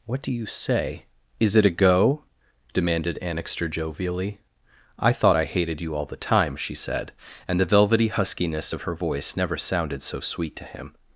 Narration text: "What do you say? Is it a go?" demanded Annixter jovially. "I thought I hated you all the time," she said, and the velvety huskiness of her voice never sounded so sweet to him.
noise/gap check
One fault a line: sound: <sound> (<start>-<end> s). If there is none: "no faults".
no faults